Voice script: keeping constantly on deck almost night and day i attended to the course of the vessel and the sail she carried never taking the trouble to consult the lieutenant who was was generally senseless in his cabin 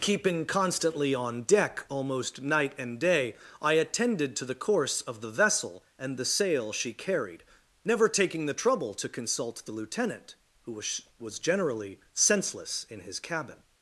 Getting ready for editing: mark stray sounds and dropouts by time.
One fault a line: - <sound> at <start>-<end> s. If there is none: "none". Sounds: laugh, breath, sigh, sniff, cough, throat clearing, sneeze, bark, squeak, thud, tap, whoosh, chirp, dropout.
none